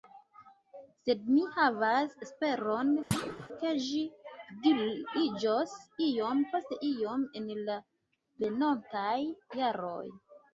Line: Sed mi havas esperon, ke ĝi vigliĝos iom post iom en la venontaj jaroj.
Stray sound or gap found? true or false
true